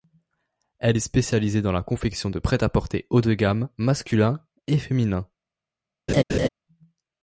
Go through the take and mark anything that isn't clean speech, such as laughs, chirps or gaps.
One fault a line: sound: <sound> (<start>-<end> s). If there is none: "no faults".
sound: laugh (6.1-6.5 s)